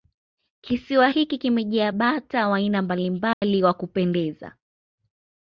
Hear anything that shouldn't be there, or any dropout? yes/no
yes